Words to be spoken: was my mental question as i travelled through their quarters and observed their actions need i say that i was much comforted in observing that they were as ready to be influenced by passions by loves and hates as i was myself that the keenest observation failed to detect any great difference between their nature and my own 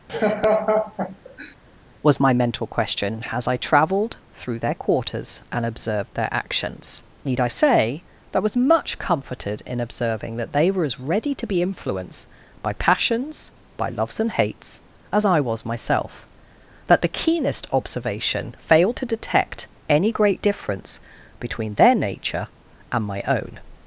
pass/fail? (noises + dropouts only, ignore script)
fail